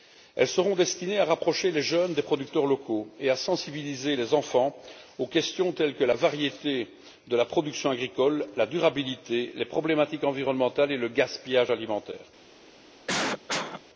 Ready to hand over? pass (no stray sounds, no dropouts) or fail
fail